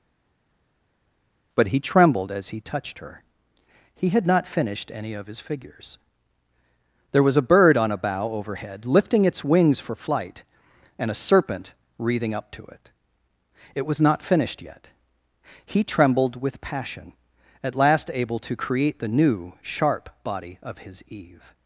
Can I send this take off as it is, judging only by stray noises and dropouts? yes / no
yes